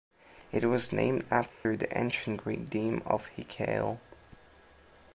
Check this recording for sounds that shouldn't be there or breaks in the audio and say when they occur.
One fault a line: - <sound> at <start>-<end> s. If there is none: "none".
- dropout at 1.5-1.7 s